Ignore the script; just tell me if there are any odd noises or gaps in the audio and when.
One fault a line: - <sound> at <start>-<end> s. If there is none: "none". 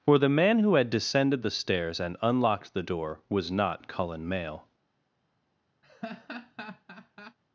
- laugh at 5.8-7.4 s